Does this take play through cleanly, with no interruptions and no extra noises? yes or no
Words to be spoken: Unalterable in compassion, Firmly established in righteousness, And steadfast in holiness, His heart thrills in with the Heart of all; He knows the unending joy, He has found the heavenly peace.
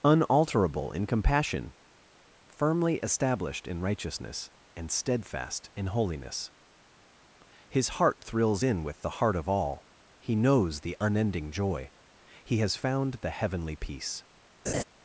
no